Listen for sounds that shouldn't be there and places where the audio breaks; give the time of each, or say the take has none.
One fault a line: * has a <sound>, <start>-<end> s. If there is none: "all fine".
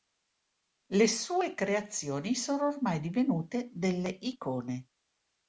all fine